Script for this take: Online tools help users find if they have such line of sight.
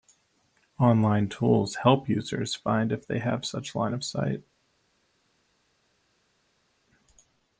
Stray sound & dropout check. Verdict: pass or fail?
pass